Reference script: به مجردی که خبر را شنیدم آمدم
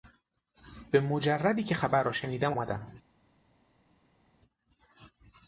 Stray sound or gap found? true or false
false